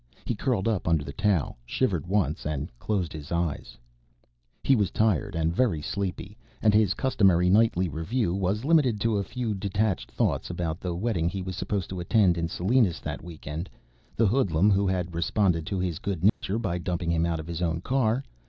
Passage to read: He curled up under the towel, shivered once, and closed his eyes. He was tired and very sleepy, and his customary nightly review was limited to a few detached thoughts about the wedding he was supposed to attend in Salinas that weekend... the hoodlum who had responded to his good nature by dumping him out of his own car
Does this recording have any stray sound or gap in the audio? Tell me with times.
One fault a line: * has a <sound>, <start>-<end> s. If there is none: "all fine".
* has a dropout, 16.3-16.4 s